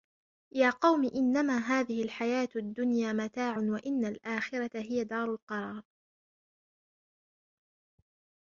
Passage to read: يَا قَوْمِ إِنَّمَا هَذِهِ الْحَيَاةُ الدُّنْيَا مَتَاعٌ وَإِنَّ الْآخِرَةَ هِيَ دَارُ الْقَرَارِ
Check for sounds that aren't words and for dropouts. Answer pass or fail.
pass